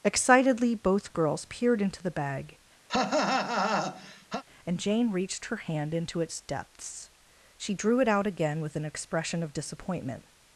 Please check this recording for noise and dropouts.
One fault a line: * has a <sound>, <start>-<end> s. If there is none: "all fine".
* has a cough, 2.9-4.4 s